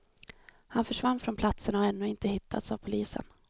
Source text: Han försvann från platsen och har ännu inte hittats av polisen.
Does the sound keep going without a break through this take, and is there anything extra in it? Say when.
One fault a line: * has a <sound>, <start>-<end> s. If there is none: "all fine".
all fine